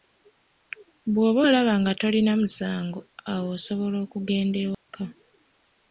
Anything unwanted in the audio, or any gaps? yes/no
yes